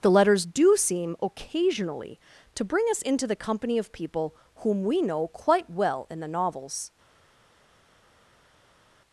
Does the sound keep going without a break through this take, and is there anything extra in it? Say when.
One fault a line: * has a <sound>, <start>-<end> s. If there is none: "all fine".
all fine